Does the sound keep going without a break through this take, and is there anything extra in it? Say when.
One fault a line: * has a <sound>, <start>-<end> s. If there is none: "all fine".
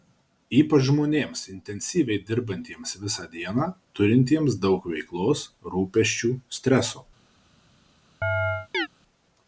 * has a chirp, 8.2-8.9 s